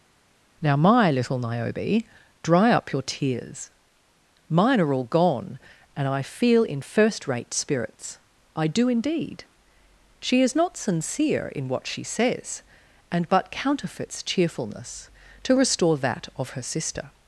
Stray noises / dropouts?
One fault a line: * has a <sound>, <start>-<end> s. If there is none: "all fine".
all fine